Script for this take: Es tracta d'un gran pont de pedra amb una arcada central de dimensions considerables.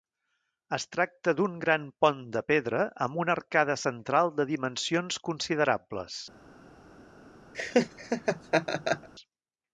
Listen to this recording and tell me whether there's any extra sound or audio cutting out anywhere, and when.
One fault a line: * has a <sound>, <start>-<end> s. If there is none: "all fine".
* has a laugh, 7.5-9.1 s